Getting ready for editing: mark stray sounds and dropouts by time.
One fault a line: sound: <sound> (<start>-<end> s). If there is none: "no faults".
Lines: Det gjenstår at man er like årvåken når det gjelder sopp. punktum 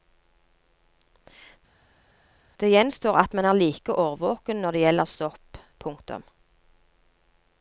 no faults